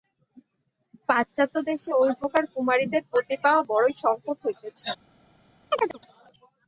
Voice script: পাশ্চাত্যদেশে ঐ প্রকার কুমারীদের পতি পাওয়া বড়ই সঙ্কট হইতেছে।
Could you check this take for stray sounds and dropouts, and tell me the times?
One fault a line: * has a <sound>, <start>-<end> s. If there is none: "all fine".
* has a chirp, 5.7-6.0 s